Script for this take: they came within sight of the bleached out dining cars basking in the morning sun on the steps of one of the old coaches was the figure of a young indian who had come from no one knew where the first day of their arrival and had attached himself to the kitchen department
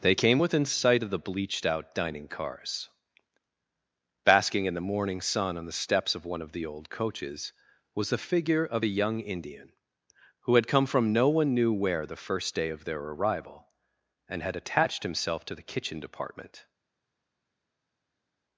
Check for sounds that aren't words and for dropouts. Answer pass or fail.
pass